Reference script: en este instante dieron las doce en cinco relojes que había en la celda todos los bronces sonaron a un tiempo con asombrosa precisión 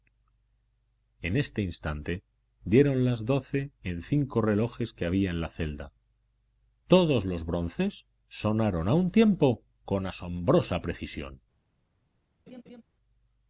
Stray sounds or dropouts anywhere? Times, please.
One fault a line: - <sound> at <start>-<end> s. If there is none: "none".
- laugh at 12.5-12.8 s